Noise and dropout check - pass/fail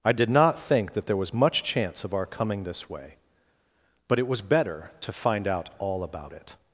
pass